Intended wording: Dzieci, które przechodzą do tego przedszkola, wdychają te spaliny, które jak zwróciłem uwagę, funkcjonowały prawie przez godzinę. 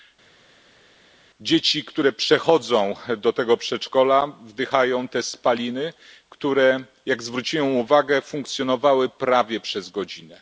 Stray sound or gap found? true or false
false